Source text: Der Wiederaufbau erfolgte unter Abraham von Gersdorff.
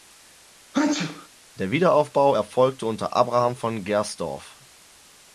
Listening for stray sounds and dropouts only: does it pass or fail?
fail